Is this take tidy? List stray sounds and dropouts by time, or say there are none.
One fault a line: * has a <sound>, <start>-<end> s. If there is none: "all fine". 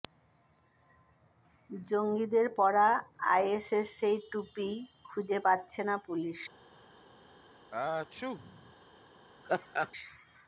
* has a sneeze, 7.7-8.7 s
* has a laugh, 9.4-9.9 s